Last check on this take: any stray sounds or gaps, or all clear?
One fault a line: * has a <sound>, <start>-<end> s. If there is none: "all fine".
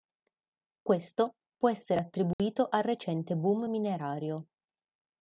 * has a dropout, 2.3-2.4 s